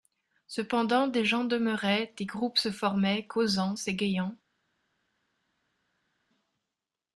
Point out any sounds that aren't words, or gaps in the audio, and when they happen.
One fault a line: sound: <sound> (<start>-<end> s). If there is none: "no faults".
no faults